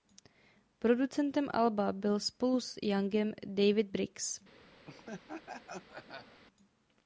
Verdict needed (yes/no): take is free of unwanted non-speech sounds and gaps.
no